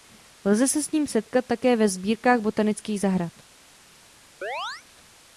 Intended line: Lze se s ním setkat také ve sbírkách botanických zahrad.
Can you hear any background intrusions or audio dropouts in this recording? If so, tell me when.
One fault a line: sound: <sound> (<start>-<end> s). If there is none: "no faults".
sound: chirp (4.4-4.8 s)